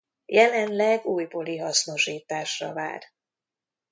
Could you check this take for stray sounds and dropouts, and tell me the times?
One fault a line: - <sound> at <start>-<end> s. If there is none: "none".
none